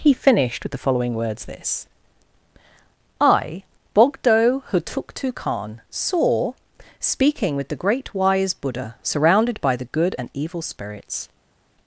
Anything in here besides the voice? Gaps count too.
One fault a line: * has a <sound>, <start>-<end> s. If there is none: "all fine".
all fine